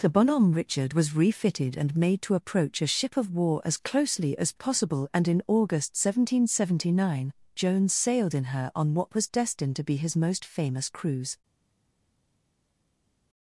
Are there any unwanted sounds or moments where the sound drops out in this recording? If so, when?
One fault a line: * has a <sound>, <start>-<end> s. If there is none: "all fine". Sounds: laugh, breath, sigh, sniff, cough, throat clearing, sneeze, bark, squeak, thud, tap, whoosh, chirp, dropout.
all fine